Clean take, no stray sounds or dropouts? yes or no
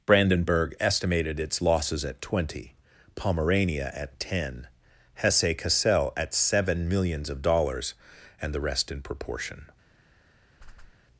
no